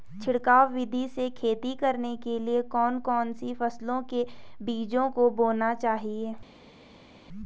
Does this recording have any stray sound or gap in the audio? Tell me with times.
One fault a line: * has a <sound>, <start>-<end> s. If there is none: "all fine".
all fine